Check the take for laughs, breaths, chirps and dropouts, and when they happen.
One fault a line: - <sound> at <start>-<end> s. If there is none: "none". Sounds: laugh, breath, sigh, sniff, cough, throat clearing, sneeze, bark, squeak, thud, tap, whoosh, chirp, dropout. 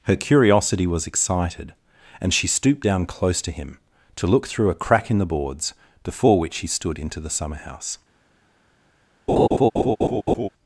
- laugh at 9.3-10.5 s